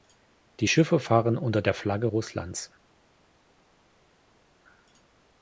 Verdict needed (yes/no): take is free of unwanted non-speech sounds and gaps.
yes